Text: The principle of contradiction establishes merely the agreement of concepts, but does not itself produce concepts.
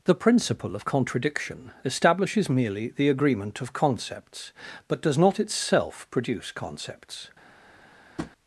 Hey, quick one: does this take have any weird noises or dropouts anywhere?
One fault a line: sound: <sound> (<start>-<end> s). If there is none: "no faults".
sound: tap (8.2-8.3 s)